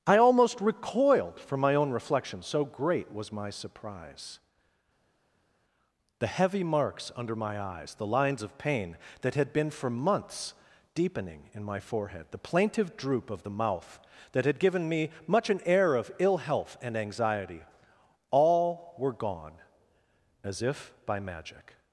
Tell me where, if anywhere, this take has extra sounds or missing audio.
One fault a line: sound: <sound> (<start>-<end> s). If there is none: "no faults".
no faults